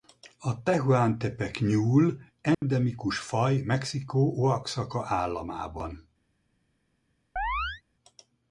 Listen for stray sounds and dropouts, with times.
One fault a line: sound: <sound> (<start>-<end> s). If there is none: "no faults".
sound: dropout (2.5-2.6 s)
sound: chirp (7.4-7.8 s)